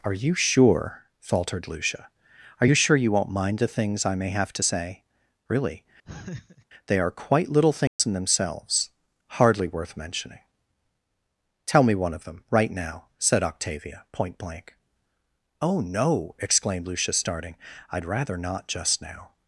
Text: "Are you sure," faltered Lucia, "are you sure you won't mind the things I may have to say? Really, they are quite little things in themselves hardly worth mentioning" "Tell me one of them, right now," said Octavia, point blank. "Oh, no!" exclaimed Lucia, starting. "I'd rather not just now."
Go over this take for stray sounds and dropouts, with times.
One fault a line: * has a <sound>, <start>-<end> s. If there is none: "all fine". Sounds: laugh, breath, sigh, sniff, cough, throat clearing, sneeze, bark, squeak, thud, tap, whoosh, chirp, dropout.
* has a laugh, 6.1-6.7 s
* has a dropout, 7.9-8.0 s